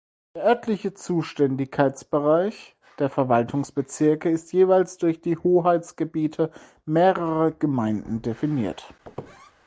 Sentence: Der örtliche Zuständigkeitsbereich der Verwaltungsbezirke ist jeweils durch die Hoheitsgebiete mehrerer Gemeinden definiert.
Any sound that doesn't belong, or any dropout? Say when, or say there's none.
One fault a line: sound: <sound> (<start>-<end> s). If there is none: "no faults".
sound: squeak (9.0-9.5 s)